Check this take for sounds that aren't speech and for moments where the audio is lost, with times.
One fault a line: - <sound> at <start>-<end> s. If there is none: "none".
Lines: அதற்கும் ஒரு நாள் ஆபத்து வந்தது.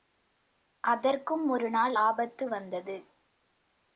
none